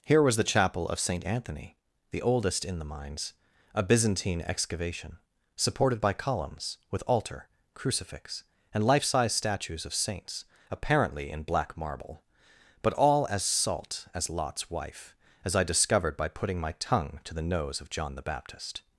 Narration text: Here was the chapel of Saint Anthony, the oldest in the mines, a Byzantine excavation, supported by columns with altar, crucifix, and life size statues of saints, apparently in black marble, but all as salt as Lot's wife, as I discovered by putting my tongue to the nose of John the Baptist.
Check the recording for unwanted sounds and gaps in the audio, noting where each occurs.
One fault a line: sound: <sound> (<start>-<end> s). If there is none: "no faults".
no faults